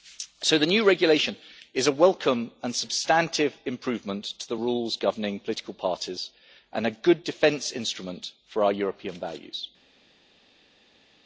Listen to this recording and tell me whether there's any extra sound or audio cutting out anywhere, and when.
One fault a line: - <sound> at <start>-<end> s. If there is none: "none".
none